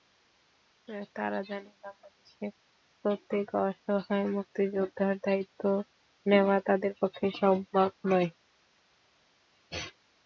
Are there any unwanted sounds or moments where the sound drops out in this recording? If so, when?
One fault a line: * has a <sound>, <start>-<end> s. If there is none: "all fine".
all fine